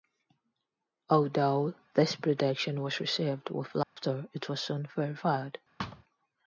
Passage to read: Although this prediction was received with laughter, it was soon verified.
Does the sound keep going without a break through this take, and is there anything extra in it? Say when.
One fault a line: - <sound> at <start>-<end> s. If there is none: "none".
- dropout at 3.8-4.0 s
- thud at 5.8-6.0 s